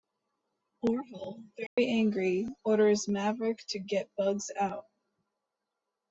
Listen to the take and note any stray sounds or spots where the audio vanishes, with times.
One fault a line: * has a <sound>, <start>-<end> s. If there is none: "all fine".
* has a dropout, 1.7-1.8 s